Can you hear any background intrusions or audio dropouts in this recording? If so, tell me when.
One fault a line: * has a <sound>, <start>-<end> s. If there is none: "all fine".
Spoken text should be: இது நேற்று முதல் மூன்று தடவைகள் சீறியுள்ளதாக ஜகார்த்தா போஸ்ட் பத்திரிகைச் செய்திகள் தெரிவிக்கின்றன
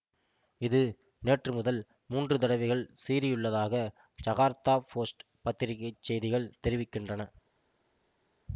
all fine